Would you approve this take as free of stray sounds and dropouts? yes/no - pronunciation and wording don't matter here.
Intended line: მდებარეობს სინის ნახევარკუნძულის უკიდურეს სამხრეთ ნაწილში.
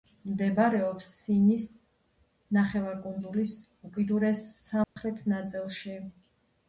no